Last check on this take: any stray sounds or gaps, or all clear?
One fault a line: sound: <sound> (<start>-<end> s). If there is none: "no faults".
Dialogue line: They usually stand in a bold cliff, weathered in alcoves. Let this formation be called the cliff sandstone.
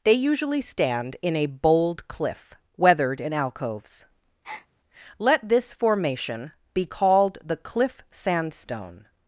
sound: breath (4.4-4.7 s)